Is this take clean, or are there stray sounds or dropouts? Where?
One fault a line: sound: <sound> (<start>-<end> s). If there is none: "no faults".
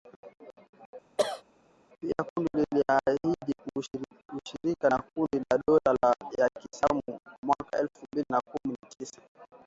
sound: cough (1.2-1.4 s)